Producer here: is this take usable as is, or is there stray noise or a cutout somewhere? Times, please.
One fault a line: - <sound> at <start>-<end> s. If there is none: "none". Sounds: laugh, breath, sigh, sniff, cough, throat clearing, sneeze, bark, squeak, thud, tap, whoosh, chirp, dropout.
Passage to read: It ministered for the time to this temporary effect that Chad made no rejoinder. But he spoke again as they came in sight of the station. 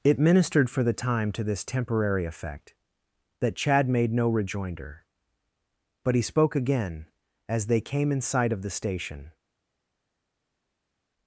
none